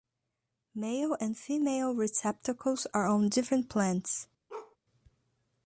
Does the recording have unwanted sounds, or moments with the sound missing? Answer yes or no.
yes